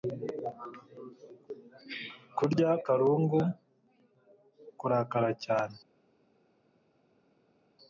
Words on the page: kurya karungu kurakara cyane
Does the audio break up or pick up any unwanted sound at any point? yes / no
no